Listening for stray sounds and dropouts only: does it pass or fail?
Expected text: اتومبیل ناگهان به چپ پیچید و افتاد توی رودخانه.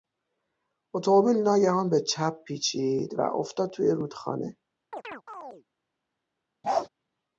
fail